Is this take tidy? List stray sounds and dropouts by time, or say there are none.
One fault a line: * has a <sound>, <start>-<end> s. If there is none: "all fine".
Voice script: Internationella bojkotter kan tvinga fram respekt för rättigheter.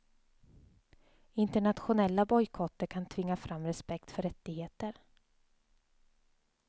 all fine